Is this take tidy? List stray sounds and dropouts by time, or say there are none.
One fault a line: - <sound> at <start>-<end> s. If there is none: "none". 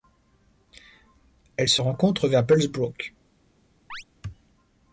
- chirp at 3.9-4.0 s